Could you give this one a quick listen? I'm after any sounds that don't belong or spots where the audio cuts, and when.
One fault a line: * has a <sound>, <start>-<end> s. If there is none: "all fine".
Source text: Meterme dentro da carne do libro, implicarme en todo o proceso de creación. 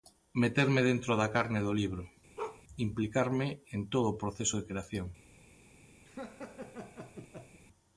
* has a bark, 2.4-2.6 s
* has a laugh, 6.0-7.6 s